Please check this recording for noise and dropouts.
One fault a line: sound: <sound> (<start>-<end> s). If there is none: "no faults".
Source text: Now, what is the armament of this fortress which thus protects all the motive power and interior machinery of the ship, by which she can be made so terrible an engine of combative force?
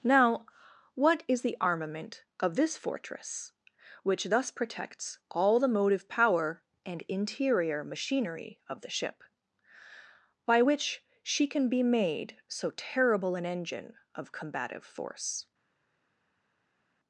no faults